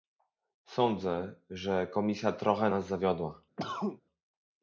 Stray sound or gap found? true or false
true